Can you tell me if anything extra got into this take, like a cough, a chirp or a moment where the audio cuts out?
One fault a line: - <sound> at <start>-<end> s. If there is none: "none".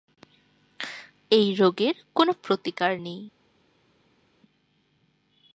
none